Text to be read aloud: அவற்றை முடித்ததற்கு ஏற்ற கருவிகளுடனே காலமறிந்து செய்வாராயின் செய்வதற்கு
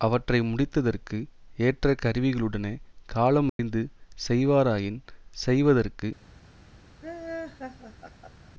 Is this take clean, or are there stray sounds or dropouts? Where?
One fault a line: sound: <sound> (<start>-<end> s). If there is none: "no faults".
sound: dropout (3.5-3.6 s)
sound: laugh (7.0-8.5 s)